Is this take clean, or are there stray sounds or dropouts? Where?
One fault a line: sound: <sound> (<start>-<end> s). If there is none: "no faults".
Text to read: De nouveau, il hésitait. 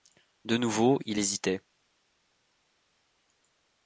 no faults